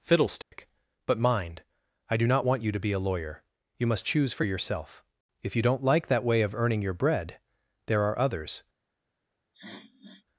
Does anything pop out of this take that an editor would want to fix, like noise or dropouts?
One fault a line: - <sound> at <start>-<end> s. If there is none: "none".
- dropout at 0.4-0.5 s
- sniff at 9.5-10.3 s